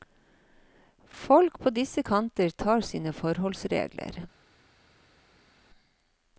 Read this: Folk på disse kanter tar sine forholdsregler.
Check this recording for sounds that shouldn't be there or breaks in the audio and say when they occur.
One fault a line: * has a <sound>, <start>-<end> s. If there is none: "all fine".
all fine